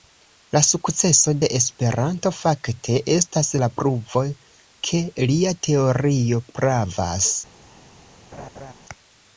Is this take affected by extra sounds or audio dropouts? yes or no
yes